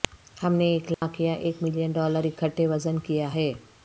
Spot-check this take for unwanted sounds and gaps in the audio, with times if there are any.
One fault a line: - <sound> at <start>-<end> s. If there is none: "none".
- dropout at 0.9-1.0 s